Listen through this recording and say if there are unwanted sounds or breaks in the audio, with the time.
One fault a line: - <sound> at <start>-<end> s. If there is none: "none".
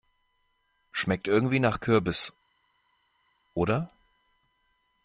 none